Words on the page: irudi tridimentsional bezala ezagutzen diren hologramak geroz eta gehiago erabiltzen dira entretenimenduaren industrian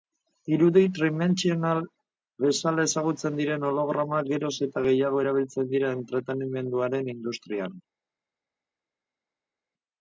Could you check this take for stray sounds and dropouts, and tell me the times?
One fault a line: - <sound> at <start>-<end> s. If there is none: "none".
none